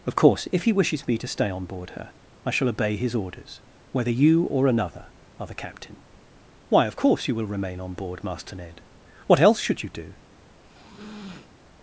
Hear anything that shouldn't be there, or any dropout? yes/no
yes